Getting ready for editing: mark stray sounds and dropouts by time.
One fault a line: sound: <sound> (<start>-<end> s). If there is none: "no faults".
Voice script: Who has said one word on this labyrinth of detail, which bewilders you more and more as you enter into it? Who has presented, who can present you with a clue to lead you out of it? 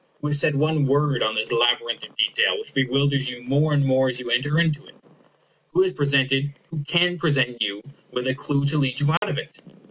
sound: dropout (9.2-9.2 s)